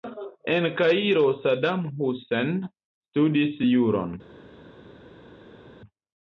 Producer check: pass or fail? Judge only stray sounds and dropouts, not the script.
pass